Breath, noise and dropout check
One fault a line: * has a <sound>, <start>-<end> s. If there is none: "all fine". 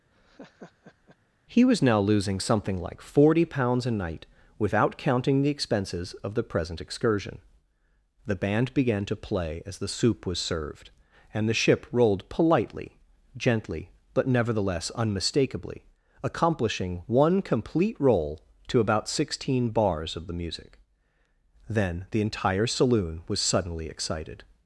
* has a laugh, 0.1-1.2 s